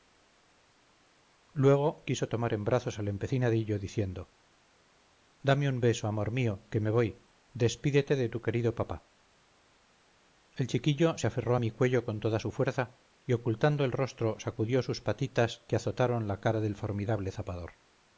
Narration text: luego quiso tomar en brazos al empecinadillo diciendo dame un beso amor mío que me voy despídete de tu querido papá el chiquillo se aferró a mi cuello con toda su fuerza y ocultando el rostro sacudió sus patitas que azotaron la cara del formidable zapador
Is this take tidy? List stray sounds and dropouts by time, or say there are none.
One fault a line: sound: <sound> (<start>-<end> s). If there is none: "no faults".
no faults